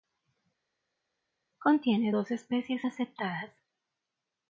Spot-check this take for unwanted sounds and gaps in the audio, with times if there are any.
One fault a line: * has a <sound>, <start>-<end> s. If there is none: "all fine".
all fine